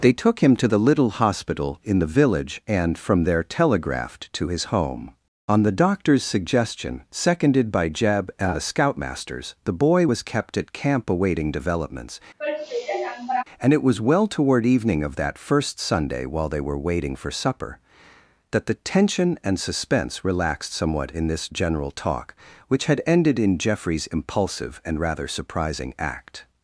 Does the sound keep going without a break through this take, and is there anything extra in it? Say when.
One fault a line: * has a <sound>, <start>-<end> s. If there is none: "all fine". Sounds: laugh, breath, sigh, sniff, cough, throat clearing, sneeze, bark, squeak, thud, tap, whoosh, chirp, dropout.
* has a sigh, 12.4-13.4 s